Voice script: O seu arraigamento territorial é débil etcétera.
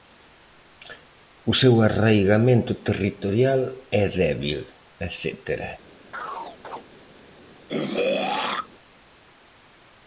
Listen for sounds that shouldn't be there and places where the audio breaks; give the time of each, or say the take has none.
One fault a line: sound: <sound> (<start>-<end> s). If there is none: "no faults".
sound: chirp (6.1-6.8 s)
sound: throat clearing (7.7-8.7 s)